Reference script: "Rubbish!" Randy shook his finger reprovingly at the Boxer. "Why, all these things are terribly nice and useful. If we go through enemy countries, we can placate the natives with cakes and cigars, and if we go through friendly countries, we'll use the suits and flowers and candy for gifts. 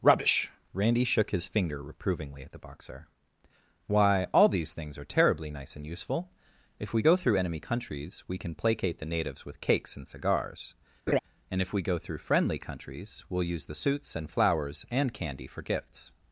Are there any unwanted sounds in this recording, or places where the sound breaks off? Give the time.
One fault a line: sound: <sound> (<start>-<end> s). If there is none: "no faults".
sound: laugh (11.1-11.2 s)